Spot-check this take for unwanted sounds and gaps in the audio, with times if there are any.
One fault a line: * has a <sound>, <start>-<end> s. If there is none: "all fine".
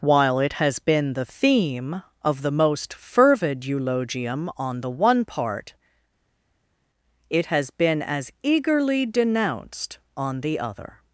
all fine